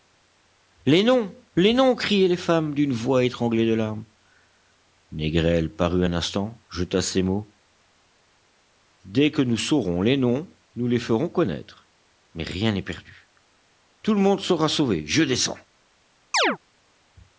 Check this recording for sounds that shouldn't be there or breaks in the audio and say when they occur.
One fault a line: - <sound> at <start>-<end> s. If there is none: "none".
- chirp at 16.3-16.6 s